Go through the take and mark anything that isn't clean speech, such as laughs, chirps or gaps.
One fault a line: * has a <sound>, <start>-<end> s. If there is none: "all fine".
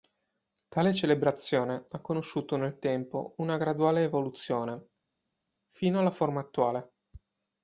all fine